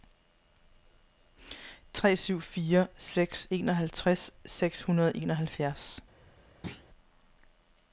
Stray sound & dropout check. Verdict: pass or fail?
fail